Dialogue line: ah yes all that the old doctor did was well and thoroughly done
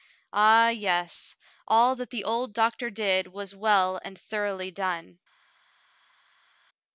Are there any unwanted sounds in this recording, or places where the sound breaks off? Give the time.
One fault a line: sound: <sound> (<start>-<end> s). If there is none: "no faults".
no faults